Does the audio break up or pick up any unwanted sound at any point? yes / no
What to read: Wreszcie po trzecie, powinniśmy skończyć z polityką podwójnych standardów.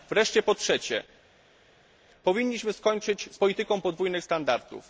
no